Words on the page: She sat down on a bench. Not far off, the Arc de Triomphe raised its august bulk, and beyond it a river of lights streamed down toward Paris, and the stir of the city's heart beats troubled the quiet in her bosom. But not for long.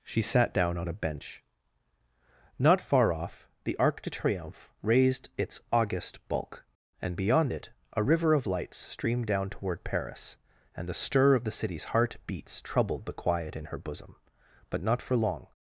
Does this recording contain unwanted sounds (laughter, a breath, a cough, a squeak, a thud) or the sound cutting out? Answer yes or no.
no